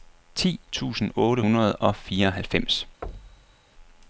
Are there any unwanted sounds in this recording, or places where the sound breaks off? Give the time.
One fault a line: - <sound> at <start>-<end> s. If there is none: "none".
- thud at 3.0-3.6 s